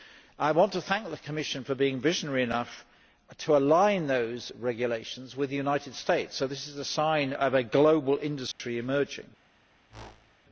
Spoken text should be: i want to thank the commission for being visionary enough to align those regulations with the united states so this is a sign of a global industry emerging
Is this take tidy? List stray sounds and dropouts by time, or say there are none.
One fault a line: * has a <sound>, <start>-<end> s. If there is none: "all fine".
* has a dropout, 8.5-8.6 s
* has a whoosh, 9.9-10.4 s